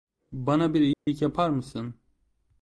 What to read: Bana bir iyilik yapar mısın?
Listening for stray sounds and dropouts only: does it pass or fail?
fail